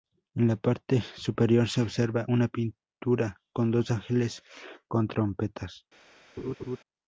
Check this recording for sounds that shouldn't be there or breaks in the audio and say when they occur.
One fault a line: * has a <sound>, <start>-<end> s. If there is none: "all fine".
* has a laugh, 6.4-6.8 s